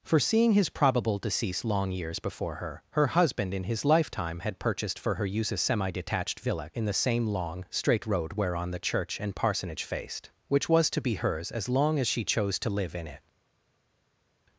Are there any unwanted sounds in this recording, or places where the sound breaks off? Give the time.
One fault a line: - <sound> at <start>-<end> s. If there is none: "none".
none